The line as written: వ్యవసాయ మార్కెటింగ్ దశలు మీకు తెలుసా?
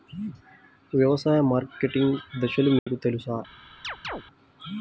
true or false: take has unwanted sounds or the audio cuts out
true